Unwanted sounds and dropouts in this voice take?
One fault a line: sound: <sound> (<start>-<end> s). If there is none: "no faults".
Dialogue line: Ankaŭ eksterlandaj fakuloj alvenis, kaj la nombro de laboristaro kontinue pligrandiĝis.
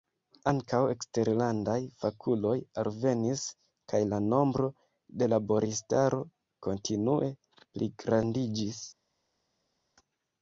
no faults